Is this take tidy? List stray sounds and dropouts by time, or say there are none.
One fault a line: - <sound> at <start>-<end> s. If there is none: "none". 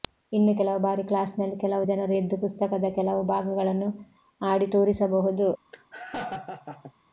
- laugh at 5.7-6.9 s